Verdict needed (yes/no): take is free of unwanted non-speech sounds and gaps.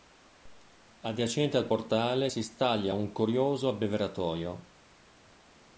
yes